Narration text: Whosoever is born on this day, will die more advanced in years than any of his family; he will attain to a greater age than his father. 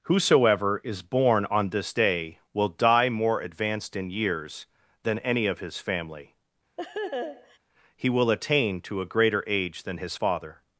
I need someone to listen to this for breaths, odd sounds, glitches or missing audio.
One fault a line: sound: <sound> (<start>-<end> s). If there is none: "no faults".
sound: laugh (6.8-7.6 s)